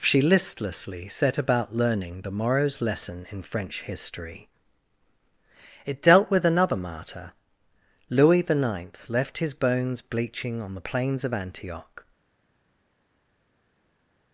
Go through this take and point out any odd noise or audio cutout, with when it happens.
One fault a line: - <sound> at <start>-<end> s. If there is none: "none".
none